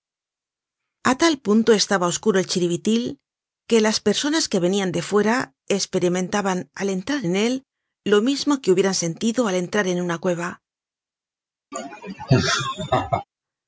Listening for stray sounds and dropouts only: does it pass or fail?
fail